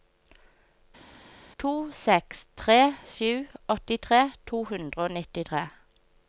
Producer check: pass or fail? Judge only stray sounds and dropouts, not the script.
pass